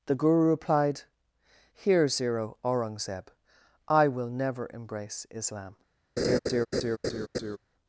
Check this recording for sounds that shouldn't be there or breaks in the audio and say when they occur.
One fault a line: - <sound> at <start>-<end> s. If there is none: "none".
- laugh at 6.2-7.6 s